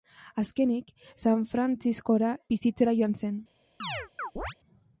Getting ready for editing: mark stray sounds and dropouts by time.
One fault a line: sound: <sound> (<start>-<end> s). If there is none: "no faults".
sound: chirp (3.8-4.6 s)